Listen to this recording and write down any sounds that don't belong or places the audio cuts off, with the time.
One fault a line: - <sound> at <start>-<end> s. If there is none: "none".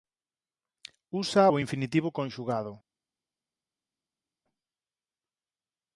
none